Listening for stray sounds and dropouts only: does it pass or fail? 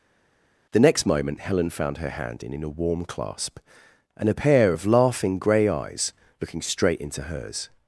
pass